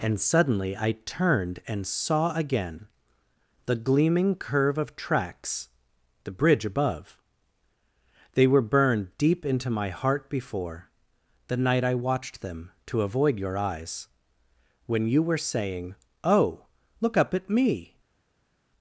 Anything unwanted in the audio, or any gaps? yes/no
no